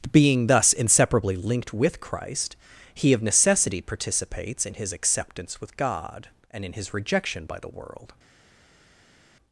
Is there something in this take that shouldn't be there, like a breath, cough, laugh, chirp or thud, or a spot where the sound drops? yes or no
no